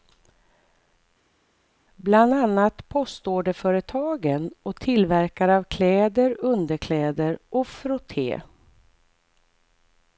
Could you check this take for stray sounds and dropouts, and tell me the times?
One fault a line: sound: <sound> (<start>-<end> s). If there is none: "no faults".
no faults